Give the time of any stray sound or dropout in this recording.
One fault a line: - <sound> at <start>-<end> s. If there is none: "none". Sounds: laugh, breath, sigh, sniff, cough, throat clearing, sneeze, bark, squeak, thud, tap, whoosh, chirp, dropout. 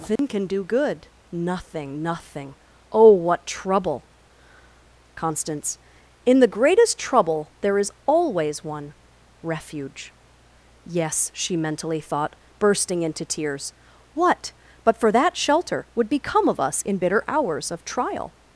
- dropout at 0.2-0.2 s